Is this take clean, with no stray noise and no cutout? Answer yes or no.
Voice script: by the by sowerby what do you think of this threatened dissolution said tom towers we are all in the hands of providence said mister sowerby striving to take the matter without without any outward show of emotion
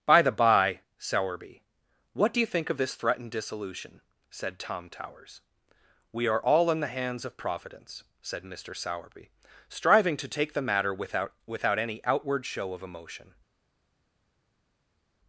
yes